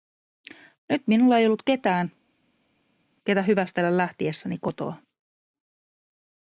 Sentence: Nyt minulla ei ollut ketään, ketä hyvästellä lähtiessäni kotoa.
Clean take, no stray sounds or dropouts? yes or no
yes